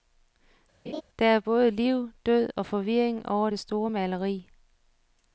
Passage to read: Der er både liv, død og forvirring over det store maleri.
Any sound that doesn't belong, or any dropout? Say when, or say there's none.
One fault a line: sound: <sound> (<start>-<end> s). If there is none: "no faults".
sound: laugh (0.9-1.0 s)